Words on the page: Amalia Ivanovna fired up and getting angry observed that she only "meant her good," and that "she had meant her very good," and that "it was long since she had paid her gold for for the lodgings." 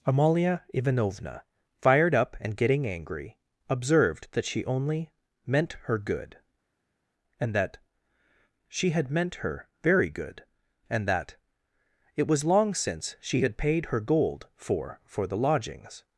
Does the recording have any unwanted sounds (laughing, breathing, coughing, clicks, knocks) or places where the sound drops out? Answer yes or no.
no